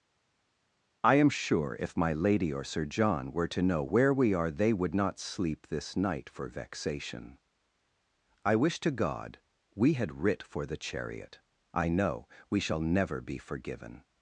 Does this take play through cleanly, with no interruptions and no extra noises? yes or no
yes